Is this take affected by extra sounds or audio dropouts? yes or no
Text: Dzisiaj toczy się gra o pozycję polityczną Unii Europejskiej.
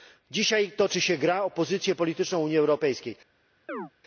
yes